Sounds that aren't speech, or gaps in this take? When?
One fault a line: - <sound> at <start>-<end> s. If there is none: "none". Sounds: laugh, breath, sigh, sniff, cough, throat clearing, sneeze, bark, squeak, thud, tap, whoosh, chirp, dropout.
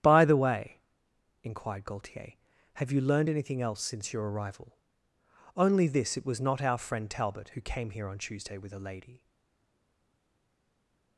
none